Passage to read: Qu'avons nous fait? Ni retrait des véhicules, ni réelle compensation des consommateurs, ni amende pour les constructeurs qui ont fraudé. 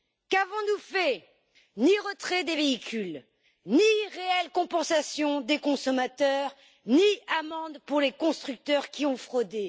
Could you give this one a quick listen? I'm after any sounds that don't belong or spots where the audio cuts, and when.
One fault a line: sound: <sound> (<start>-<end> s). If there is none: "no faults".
no faults